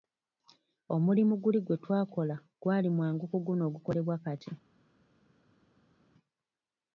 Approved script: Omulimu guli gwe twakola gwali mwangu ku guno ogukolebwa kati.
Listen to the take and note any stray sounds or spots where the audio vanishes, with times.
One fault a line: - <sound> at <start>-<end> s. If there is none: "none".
none